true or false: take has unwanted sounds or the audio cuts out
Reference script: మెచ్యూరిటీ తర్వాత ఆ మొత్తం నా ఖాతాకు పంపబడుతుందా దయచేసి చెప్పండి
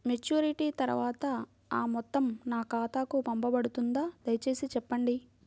false